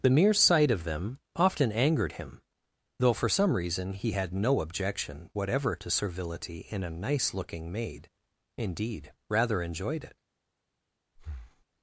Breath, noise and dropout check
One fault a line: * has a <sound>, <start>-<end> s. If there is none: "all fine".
* has a breath, 11.2-11.7 s